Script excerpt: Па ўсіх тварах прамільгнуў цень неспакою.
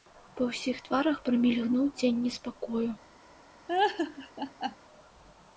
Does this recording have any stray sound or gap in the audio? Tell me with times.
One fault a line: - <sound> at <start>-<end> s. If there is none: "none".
- laugh at 3.7-4.8 s